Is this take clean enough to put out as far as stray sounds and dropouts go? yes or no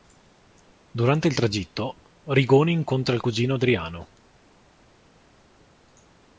yes